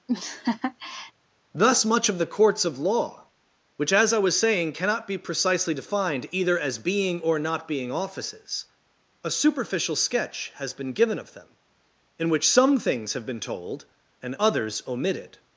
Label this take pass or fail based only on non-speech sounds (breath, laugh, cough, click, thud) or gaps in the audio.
fail